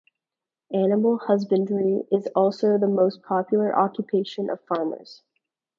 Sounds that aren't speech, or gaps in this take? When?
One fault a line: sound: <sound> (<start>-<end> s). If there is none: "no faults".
no faults